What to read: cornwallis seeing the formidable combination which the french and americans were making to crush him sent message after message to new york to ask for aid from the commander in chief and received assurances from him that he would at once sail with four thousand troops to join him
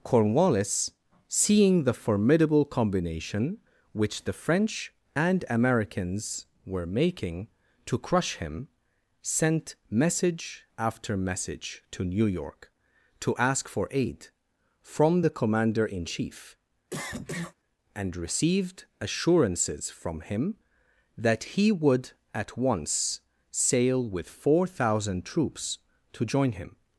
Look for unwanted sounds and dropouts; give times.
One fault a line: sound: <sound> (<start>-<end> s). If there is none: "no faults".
sound: cough (16.9-17.6 s)